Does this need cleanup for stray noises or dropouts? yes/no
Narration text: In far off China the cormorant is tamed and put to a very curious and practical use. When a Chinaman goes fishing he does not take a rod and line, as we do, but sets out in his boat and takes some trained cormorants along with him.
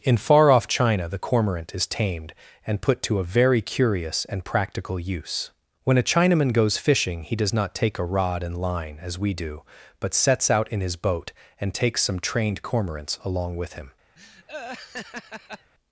yes